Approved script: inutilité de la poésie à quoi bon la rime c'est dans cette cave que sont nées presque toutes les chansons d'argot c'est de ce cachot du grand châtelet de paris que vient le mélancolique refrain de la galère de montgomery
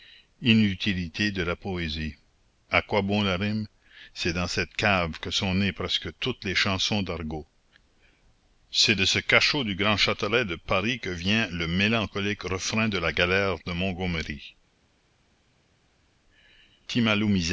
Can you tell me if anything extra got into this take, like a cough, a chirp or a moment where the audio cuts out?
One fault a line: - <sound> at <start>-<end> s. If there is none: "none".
none